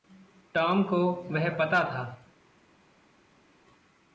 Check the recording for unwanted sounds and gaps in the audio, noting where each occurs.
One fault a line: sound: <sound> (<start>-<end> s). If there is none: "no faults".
no faults